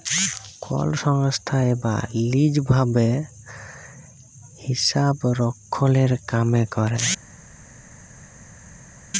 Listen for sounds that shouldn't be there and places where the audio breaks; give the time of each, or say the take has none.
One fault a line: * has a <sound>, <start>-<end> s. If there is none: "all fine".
all fine